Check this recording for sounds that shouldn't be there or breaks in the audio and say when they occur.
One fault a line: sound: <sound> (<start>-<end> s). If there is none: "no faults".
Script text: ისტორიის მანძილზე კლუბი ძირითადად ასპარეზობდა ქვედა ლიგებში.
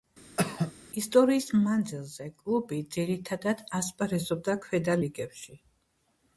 sound: cough (0.4-0.7 s)